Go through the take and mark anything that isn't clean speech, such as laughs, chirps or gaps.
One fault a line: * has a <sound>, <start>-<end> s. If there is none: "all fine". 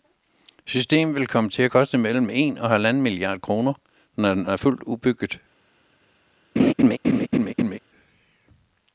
* has a laugh, 6.6-7.8 s